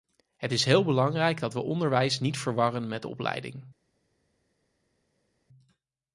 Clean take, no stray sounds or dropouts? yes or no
yes